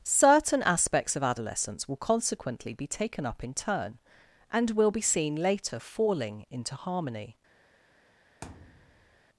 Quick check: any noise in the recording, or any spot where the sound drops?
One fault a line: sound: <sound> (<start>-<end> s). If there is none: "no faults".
sound: thud (8.4-9.2 s)